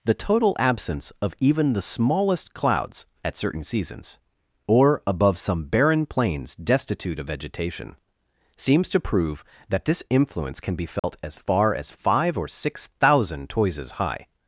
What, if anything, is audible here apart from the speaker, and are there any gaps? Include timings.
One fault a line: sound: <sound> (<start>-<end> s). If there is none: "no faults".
sound: dropout (11.0-11.0 s)